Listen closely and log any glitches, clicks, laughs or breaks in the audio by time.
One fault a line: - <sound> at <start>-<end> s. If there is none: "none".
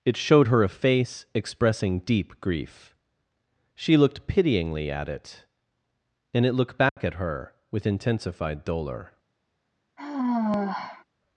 - dropout at 6.9-7.0 s
- sigh at 10.0-11.0 s